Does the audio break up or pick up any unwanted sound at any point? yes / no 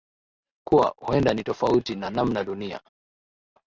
no